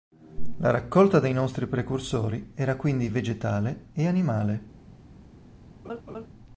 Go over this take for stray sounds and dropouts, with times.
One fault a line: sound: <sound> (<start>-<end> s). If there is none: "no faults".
sound: laugh (5.8-6.3 s)